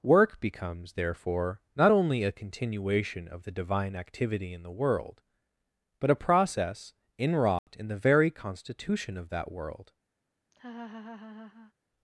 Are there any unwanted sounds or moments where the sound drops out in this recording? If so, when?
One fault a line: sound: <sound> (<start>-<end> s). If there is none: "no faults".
sound: dropout (7.6-7.7 s)
sound: laugh (10.5-11.7 s)